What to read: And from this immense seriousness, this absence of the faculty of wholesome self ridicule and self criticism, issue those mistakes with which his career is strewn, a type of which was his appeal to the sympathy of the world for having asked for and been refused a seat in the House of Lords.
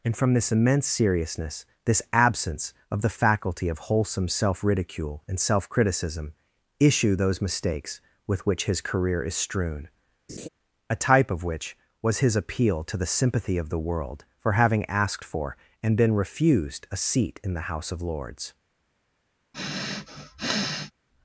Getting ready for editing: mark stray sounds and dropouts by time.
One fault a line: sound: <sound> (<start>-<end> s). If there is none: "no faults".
sound: laugh (10.3-10.5 s)
sound: sniff (19.5-20.9 s)